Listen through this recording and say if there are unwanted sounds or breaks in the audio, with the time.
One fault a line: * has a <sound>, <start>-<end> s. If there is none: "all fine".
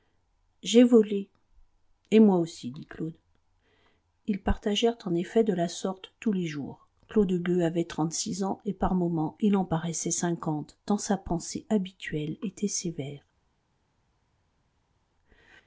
all fine